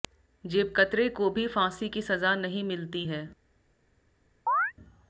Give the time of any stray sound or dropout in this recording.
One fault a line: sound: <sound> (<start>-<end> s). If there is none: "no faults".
sound: chirp (4.5-4.7 s)